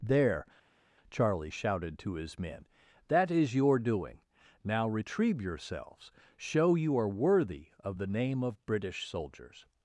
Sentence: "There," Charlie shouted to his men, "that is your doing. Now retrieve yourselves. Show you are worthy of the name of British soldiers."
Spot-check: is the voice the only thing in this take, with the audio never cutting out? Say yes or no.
yes